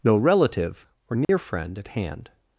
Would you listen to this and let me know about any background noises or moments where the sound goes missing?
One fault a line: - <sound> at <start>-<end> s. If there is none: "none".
- dropout at 1.2-1.3 s